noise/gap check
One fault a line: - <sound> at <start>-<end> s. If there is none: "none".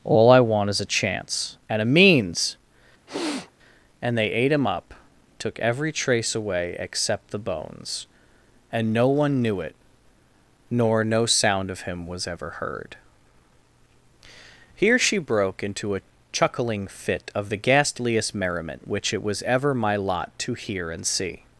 - sniff at 3.1-3.5 s